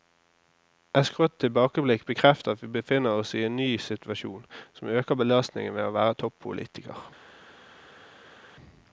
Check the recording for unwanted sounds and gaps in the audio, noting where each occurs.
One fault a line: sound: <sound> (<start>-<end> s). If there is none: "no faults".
no faults